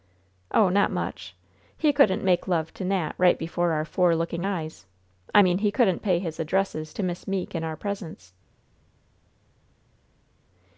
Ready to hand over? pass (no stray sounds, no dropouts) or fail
pass